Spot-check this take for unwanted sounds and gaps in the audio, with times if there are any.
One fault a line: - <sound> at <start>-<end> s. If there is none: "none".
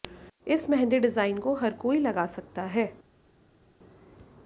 none